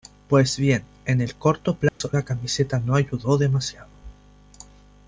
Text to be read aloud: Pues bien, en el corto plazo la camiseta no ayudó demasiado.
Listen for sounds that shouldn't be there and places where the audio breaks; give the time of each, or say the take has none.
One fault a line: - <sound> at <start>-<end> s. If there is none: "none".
- dropout at 1.9-2.0 s